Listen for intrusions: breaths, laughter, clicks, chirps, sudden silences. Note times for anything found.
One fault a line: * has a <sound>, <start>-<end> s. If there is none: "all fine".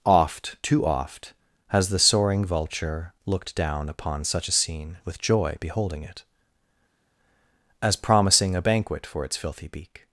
all fine